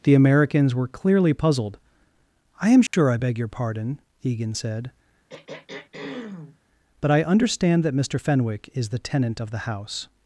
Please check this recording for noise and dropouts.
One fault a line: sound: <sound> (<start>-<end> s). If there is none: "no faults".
sound: dropout (2.9-2.9 s)
sound: throat clearing (5.3-6.6 s)